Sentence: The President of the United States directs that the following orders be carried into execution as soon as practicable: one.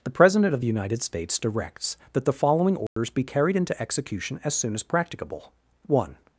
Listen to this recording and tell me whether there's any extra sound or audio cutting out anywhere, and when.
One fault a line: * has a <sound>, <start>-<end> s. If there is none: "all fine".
* has a dropout, 2.9-3.0 s